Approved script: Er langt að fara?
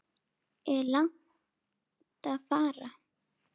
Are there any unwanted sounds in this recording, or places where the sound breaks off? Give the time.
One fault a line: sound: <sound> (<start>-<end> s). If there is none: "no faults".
no faults